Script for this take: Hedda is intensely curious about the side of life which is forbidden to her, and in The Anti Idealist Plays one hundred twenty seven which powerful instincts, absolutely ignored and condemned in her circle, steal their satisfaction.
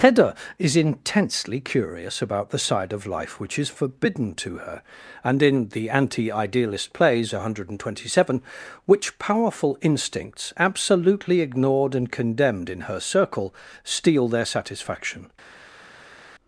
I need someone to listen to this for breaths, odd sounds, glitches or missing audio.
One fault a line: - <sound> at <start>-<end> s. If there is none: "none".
none